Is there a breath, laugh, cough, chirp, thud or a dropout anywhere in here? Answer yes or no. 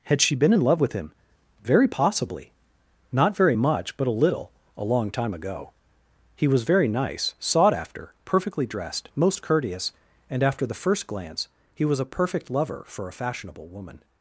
no